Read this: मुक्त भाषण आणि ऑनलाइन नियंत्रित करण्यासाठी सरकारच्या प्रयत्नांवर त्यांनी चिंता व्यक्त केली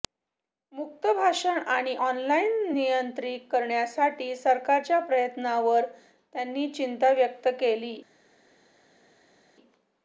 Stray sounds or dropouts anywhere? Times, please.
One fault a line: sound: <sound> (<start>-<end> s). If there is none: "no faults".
no faults